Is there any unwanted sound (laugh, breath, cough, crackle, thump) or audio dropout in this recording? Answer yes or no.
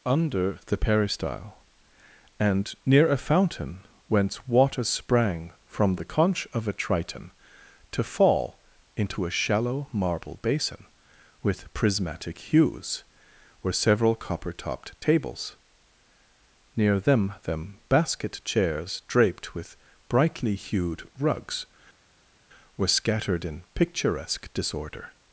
no